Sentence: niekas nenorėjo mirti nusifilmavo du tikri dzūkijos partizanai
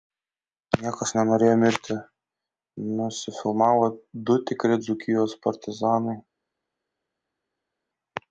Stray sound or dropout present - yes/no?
no